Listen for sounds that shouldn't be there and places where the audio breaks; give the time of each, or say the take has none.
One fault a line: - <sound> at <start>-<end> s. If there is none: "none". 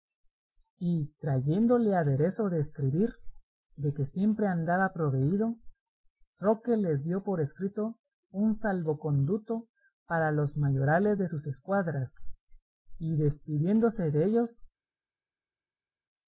none